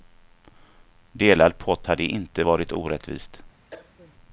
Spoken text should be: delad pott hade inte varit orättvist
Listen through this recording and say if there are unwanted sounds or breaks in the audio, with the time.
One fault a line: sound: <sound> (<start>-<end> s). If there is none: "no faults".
sound: cough (3.7-4.1 s)